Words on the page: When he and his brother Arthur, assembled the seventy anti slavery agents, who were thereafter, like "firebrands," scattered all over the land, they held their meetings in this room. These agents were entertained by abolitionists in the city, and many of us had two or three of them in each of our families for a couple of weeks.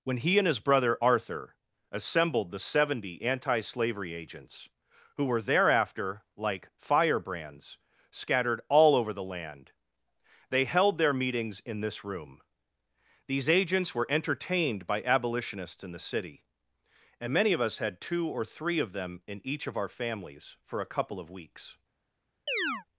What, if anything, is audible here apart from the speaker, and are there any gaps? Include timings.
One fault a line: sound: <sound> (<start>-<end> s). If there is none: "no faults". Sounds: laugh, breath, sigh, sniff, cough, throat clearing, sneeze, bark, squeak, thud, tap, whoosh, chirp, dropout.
sound: chirp (22.5-22.8 s)